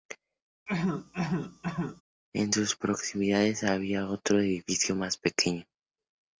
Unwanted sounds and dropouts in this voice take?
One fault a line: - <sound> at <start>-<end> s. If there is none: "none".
- cough at 0.7-2.0 s